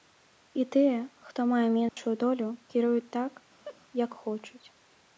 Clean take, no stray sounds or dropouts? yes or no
no